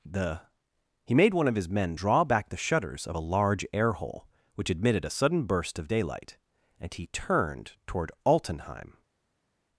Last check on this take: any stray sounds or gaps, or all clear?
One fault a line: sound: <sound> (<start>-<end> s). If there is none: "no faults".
no faults